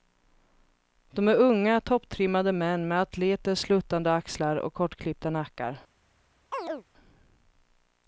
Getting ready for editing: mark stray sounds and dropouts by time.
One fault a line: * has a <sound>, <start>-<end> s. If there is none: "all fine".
* has a chirp, 6.5-6.8 s